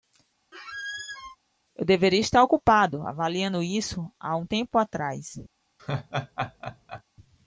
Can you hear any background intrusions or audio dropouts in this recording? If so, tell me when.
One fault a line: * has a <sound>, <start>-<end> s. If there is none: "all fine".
* has a squeak, 0.5-1.4 s
* has a laugh, 5.8-7.0 s